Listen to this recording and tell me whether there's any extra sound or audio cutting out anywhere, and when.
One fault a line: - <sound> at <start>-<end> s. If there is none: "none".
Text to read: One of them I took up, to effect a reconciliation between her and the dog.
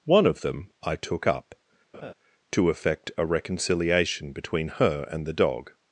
- laugh at 1.9-2.1 s